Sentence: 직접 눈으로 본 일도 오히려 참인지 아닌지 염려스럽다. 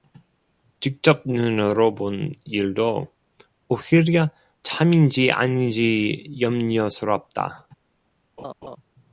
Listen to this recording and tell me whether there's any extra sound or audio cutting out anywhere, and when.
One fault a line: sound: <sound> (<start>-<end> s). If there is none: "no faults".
sound: laugh (8.4-8.8 s)